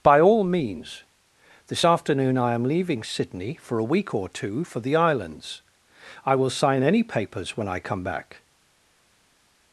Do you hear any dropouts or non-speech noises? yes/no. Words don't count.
no